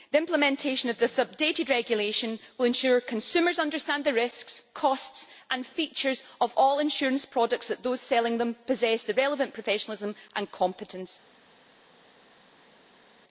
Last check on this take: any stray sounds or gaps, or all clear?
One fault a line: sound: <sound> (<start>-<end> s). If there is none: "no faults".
no faults